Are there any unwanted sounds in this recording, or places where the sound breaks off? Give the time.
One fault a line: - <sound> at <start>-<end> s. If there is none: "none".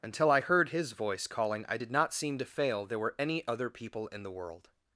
none